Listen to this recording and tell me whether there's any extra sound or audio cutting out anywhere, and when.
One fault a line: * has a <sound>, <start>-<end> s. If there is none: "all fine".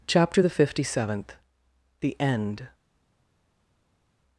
all fine